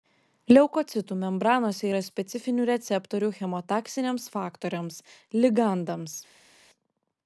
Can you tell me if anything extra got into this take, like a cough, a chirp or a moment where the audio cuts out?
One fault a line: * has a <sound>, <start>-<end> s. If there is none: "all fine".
all fine